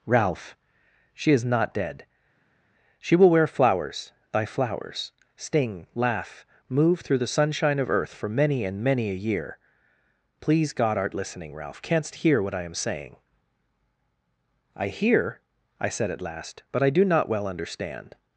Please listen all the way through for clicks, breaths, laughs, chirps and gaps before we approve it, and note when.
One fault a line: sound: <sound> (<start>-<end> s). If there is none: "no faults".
no faults